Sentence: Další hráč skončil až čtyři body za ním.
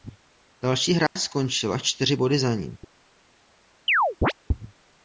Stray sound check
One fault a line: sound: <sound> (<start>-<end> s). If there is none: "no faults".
sound: dropout (1.1-1.2 s)
sound: chirp (3.9-4.3 s)